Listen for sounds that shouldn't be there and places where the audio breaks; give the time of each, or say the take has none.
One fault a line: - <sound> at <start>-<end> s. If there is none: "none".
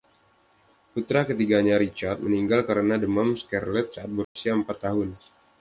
- dropout at 4.2-4.4 s